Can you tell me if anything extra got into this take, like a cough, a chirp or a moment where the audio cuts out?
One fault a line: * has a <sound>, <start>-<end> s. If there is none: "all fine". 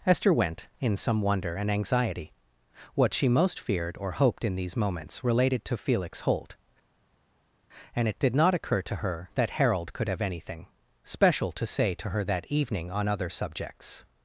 all fine